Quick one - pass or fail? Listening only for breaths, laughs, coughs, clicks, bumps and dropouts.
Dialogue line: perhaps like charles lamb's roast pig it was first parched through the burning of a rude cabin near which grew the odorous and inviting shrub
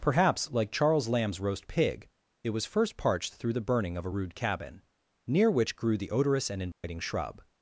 fail